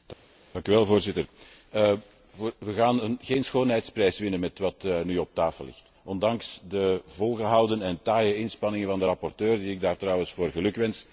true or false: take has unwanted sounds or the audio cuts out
false